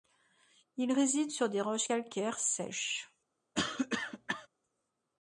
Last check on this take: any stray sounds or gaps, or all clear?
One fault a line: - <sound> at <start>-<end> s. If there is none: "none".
- cough at 3.5-4.5 s